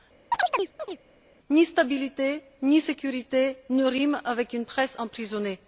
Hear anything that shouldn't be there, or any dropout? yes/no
yes